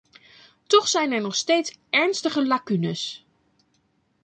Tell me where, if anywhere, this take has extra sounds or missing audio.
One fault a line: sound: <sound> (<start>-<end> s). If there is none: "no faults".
no faults